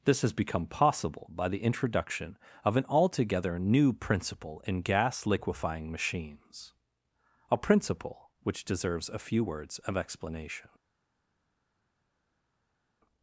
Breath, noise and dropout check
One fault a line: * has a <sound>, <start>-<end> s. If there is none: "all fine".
all fine